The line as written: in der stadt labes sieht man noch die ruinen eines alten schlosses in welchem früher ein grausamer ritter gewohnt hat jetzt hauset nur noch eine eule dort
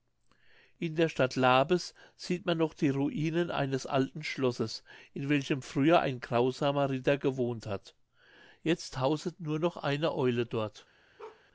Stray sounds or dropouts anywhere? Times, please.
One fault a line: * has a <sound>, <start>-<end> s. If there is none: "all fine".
* has a bark, 11.2-11.4 s